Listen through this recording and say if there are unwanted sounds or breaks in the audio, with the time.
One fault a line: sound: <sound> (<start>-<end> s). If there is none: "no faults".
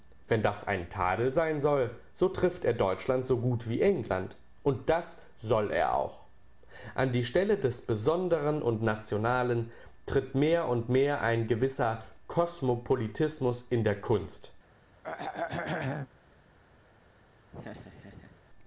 sound: throat clearing (15.0-16.1 s)
sound: laugh (17.5-18.4 s)